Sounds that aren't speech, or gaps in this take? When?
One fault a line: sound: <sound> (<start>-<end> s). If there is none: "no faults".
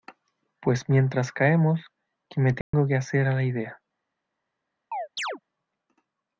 sound: dropout (2.6-2.7 s)
sound: chirp (4.9-5.4 s)